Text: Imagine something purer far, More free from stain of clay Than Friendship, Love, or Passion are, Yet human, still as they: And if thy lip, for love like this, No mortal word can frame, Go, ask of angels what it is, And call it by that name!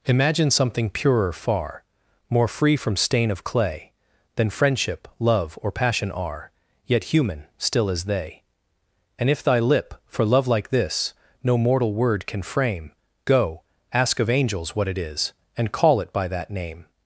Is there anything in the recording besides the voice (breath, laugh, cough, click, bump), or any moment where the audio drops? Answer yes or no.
no